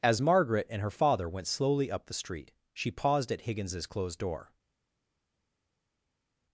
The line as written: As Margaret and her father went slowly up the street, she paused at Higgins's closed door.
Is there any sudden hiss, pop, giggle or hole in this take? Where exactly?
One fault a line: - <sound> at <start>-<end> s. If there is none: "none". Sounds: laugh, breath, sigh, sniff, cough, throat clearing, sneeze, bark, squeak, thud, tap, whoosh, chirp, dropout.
none